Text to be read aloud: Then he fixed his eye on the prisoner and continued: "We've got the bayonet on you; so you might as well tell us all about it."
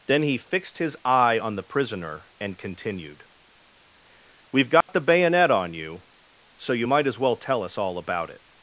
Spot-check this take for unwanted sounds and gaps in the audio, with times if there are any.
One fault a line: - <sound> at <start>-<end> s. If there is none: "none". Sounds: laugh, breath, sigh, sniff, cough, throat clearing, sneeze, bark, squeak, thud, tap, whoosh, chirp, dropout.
- dropout at 4.8-4.9 s